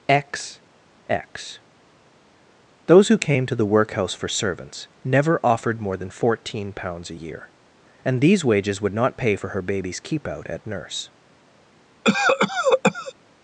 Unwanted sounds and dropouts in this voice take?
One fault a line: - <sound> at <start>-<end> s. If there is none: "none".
- cough at 12.0-13.1 s